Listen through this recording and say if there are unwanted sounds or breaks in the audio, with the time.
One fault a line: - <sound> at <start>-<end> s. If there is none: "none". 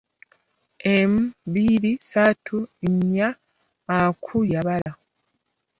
- dropout at 4.8-4.9 s